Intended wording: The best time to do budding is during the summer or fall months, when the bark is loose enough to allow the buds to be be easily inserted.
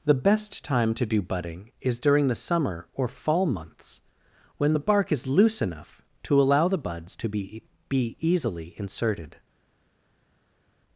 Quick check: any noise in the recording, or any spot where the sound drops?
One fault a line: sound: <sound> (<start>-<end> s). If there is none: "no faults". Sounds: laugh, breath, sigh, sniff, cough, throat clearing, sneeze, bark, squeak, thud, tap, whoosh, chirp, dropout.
no faults